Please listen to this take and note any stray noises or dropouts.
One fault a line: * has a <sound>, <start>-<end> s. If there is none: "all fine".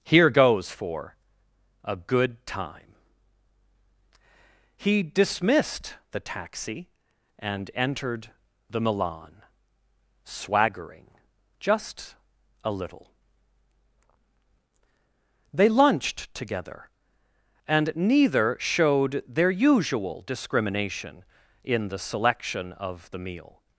all fine